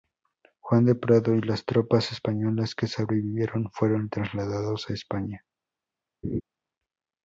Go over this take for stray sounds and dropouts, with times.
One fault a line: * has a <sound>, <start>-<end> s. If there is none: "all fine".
* has a laugh, 6.2-6.4 s